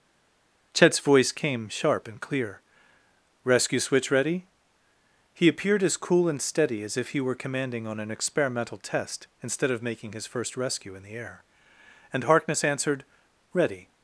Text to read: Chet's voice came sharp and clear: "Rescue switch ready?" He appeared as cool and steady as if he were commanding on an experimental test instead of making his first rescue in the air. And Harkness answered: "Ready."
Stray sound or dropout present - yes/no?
no